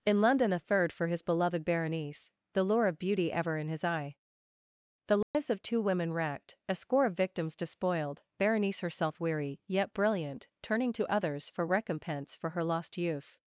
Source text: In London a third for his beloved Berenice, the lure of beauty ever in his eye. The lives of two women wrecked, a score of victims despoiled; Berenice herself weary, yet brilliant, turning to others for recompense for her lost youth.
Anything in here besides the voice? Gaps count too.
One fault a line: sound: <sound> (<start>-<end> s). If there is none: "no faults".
sound: dropout (5.2-5.3 s)